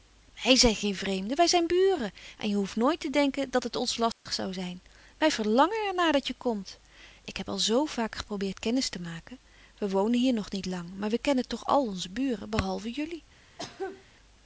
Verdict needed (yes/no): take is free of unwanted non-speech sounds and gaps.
no